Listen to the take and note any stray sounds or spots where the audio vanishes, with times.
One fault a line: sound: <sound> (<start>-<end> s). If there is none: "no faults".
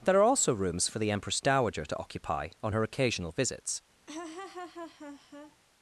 sound: laugh (4.1-5.6 s)